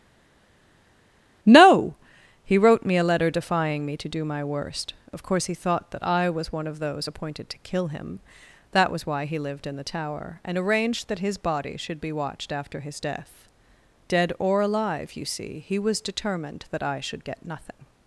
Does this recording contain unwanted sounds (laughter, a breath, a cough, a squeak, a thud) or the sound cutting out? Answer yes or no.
no